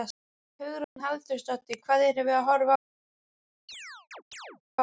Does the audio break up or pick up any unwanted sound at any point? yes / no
yes